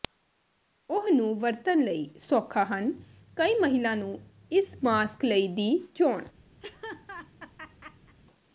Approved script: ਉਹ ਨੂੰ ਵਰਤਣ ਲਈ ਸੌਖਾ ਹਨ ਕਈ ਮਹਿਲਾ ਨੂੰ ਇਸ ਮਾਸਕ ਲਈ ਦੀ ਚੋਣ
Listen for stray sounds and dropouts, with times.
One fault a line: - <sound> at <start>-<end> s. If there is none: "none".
- laugh at 6.6-8.2 s